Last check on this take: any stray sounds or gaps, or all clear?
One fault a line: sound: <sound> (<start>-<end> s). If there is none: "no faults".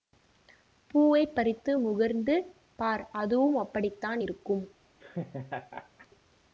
sound: laugh (5.0-6.1 s)